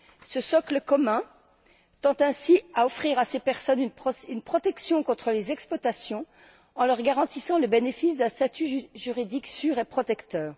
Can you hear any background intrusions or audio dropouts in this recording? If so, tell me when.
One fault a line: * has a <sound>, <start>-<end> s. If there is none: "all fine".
all fine